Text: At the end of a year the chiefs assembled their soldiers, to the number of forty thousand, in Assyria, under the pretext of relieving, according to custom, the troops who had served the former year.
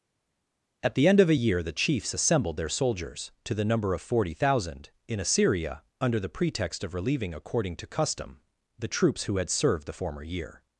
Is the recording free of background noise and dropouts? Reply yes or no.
yes